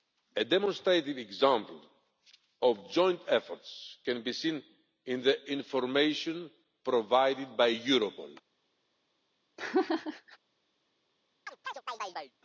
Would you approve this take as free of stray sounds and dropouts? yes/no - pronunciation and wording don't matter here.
no